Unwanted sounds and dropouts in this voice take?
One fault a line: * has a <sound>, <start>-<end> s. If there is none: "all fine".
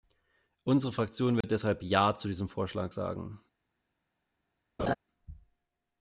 * has a dropout, 1.4-1.4 s
* has a laugh, 4.8-4.9 s